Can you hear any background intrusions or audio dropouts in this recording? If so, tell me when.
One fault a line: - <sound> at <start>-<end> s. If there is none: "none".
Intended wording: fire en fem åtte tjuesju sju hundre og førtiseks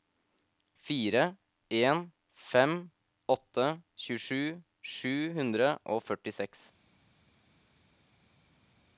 none